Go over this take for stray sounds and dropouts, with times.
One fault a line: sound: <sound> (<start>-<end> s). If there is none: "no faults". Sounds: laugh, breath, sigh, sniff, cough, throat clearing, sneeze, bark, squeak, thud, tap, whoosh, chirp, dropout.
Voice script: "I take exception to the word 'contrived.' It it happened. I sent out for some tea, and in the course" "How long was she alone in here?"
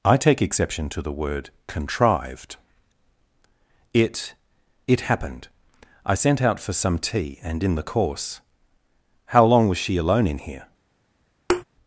sound: thud (11.5-11.6 s)